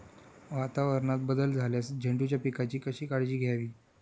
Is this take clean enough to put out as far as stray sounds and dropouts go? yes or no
yes